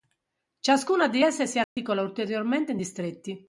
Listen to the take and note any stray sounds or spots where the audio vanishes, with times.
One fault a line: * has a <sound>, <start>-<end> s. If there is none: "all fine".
* has a dropout, 1.6-1.8 s